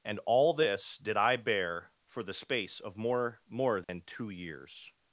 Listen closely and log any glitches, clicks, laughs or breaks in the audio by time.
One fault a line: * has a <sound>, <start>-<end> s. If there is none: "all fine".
* has a dropout, 3.8-3.9 s